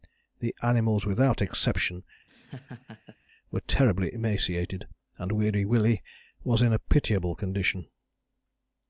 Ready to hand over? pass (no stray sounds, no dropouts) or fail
fail